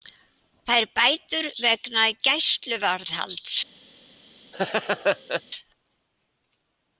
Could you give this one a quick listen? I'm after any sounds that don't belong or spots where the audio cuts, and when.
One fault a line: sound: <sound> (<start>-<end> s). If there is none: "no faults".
sound: laugh (4.5-5.4 s)